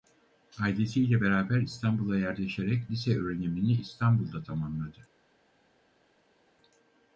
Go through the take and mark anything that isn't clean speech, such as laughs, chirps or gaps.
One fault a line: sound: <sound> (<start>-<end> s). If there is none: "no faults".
no faults